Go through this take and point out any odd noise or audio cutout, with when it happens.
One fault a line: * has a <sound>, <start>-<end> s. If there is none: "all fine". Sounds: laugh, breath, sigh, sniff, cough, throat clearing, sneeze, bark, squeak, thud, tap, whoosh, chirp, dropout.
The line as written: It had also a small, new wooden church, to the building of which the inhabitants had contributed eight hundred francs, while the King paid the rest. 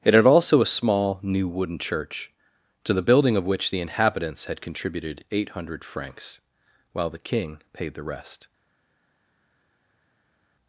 all fine